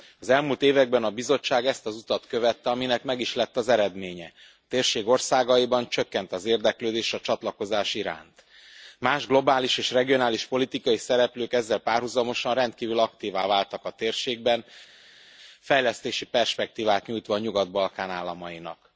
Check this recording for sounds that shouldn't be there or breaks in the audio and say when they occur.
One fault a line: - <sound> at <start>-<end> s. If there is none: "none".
none